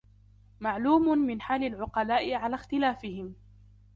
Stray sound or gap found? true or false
false